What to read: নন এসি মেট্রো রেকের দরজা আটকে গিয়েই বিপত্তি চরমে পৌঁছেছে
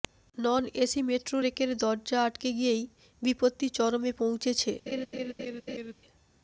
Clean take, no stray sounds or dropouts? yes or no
no